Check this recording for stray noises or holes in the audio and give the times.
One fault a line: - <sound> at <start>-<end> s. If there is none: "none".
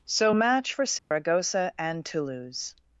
- dropout at 1.0-1.1 s